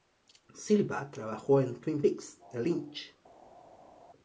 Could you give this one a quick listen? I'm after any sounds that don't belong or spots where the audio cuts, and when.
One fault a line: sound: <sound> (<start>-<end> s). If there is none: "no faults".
no faults